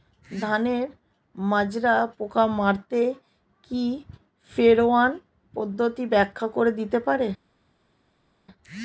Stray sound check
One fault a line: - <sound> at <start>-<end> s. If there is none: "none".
none